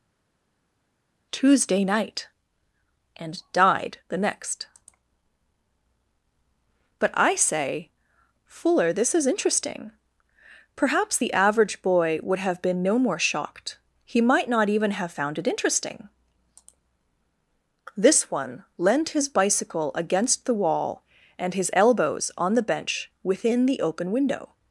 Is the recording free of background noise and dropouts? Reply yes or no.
yes